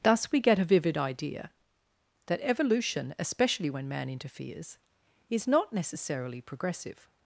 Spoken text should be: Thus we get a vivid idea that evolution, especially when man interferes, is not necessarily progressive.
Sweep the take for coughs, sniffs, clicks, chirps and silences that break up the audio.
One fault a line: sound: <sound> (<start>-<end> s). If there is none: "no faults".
no faults